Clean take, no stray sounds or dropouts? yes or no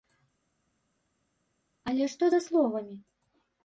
yes